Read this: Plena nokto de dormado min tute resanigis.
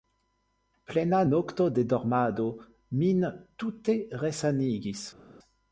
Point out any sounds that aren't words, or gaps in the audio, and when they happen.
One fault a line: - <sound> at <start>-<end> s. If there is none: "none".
none